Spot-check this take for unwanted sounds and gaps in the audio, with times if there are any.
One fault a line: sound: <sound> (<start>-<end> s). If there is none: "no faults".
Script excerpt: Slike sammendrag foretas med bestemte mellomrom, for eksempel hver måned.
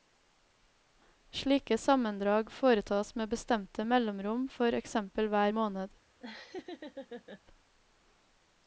sound: laugh (6.2-7.4 s)